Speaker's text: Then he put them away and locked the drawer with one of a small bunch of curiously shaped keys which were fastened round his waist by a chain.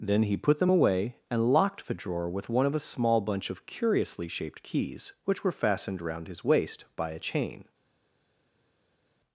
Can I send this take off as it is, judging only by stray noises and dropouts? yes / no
yes